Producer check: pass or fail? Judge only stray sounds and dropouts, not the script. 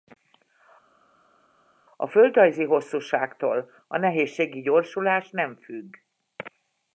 pass